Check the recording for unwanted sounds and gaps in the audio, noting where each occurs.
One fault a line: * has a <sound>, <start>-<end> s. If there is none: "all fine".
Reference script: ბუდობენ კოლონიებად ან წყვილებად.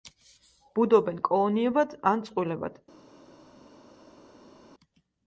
all fine